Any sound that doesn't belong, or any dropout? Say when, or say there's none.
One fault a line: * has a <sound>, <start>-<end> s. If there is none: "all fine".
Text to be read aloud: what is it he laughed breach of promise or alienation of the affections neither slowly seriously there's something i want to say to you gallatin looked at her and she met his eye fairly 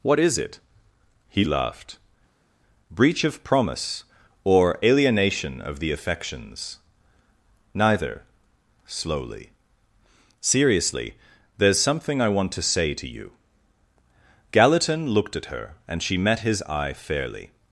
all fine